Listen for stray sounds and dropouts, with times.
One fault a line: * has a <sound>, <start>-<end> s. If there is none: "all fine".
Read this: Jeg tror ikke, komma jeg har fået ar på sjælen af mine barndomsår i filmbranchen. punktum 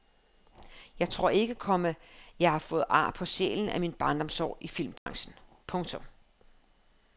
* has a dropout, 5.0-5.1 s